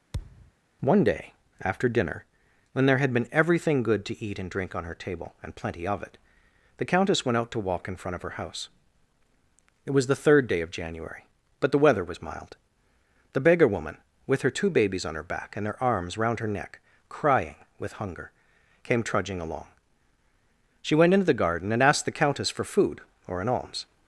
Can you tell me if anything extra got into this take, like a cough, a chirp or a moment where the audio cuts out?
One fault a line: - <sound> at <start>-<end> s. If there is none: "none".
- thud at 0.1-0.5 s